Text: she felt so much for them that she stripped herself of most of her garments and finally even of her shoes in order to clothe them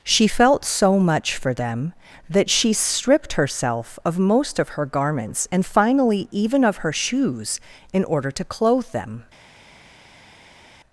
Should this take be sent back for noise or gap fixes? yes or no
no